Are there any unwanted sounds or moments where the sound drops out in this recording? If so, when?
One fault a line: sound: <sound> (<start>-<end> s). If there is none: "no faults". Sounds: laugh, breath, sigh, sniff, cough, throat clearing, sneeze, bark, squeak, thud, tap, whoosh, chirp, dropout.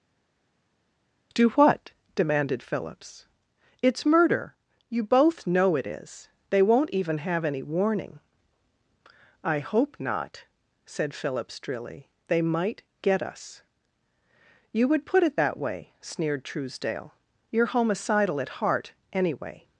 no faults